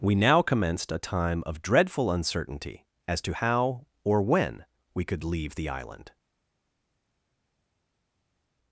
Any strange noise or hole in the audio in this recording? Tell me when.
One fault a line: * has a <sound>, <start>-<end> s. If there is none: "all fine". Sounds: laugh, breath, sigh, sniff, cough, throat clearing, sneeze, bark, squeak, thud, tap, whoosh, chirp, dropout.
all fine